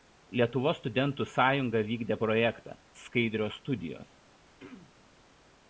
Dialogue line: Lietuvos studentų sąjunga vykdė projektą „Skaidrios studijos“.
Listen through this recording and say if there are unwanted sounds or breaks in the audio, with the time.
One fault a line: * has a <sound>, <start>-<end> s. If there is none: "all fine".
* has a throat clearing, 4.5-5.1 s